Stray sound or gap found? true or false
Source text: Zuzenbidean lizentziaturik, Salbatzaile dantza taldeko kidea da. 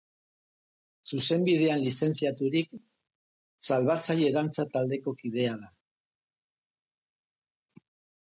false